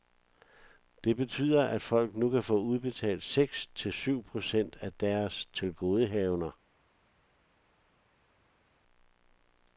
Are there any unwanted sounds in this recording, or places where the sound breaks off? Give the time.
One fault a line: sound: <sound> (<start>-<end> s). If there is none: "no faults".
no faults